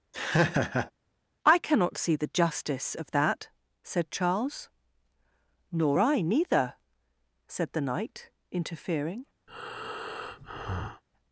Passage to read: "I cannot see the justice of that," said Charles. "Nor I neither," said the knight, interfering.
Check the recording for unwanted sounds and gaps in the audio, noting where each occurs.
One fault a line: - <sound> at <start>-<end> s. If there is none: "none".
- laugh at 0.1-0.9 s
- breath at 9.5-11.0 s